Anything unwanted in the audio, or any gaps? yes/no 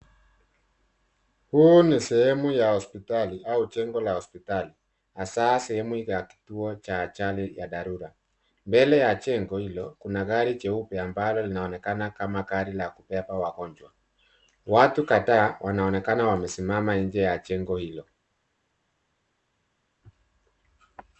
no